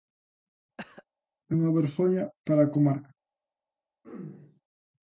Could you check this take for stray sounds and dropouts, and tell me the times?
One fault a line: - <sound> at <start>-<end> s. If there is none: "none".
- cough at 0.8-1.0 s
- throat clearing at 4.0-4.6 s